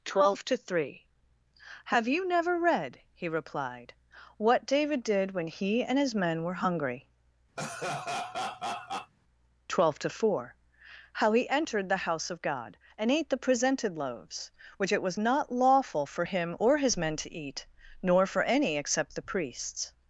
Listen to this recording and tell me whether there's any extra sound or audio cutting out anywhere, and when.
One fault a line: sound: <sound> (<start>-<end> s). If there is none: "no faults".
sound: laugh (7.6-9.1 s)